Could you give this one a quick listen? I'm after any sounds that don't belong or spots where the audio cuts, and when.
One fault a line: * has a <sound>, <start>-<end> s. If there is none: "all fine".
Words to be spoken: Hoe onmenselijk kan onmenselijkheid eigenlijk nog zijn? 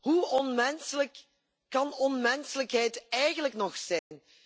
* has a dropout, 4.0-4.1 s